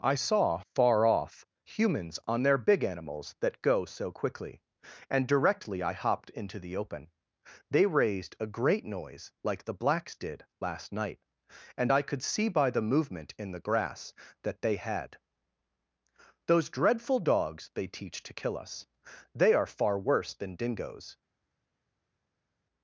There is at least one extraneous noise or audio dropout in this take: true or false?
false